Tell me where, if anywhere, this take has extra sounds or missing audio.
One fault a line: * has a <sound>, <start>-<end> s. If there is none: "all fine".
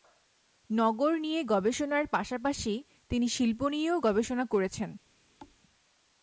* has a thud, 5.4-5.6 s